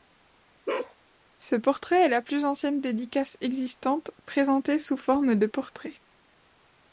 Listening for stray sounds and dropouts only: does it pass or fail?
fail